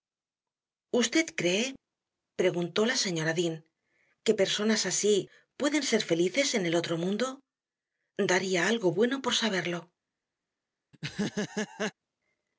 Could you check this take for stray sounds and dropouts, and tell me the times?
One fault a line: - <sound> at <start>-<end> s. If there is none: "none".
- laugh at 10.9-11.9 s